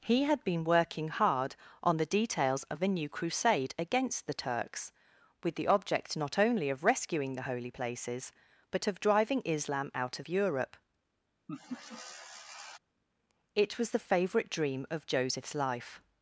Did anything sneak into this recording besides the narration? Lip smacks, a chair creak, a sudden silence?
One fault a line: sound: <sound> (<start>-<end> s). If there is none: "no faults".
sound: laugh (11.5-12.8 s)